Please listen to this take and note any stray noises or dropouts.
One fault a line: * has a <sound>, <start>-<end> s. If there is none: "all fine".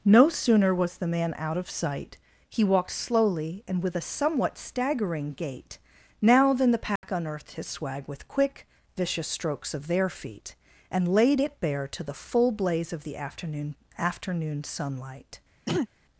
* has a dropout, 7.0-7.0 s
* has a throat clearing, 15.7-15.9 s